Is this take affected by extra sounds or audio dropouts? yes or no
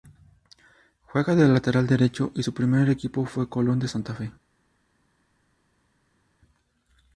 no